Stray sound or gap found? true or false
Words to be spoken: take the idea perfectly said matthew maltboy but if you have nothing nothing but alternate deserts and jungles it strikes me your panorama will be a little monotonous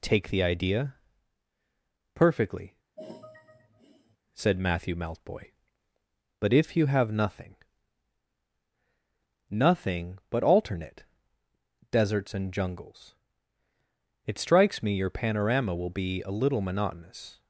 true